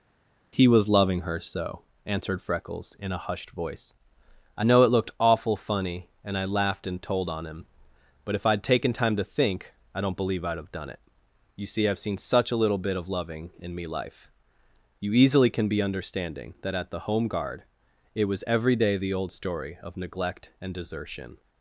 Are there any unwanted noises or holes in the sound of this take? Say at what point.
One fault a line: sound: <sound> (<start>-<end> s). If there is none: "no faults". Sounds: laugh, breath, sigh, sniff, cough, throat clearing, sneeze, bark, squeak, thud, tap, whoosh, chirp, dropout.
no faults